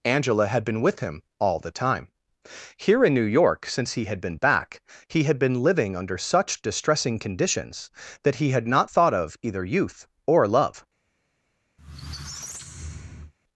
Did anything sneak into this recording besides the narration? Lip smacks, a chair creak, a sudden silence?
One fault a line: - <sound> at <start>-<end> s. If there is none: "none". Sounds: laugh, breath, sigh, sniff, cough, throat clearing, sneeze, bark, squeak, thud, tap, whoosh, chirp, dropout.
- squeak at 11.8-13.3 s